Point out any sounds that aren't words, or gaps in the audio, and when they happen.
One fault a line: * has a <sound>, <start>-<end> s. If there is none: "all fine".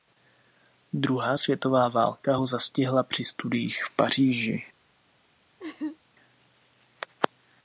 * has a laugh, 5.6-6.0 s